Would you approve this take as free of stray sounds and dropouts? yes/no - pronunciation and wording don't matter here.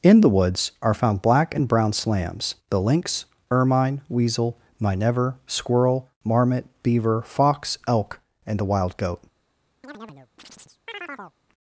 no